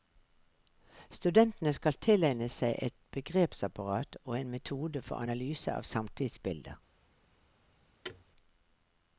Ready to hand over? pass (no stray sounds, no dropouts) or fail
fail